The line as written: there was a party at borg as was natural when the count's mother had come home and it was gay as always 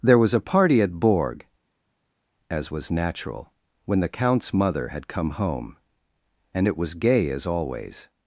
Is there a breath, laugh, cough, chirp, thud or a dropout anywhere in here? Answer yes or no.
no